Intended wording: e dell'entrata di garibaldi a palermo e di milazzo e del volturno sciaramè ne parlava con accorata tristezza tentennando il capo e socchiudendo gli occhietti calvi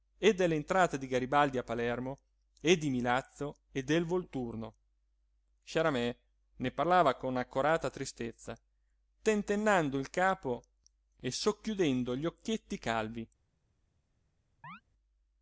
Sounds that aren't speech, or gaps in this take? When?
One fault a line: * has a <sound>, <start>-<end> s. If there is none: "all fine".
* has a chirp, 14.6-14.8 s